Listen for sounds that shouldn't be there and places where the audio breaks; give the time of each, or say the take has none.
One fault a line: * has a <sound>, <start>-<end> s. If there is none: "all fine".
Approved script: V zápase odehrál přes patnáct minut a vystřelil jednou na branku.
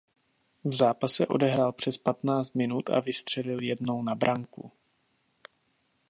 all fine